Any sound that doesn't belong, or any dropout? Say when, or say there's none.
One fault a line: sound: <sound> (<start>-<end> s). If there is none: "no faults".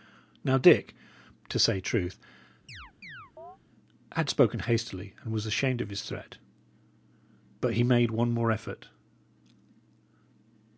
sound: chirp (2.7-3.6 s)